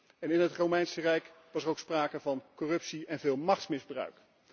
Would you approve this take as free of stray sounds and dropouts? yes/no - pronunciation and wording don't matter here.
yes